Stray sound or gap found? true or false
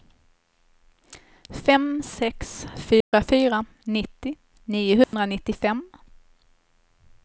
true